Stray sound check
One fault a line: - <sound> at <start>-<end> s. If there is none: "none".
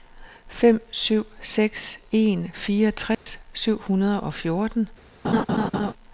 - dropout at 3.1-3.3 s
- laugh at 5.2-5.9 s